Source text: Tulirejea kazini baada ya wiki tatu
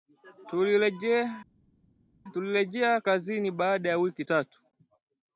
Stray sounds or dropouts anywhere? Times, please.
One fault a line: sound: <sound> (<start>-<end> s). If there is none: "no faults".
no faults